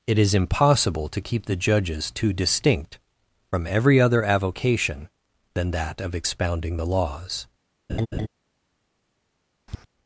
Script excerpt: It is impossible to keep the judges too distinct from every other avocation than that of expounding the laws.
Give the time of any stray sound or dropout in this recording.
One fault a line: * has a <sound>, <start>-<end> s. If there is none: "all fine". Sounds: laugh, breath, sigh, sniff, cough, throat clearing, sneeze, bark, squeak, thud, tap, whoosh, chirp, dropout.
* has a laugh, 7.9-8.3 s
* has a tap, 9.7-9.9 s